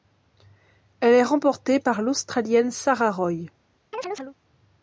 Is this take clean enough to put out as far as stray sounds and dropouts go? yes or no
no